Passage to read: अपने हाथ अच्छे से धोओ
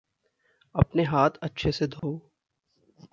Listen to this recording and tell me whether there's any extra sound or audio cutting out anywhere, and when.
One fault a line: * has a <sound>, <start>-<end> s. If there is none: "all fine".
* has a dropout, 2.0-2.0 s